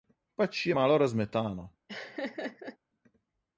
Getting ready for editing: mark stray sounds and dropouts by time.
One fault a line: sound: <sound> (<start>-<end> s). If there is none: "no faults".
sound: laugh (1.9-2.8 s)